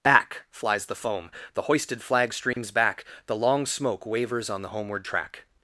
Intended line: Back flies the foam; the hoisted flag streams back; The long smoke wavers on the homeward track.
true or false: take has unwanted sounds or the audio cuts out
true